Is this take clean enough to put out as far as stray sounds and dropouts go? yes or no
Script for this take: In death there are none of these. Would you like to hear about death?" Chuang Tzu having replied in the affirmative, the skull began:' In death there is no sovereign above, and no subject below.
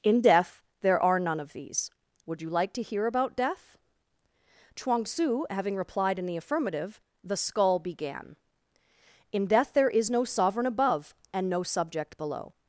yes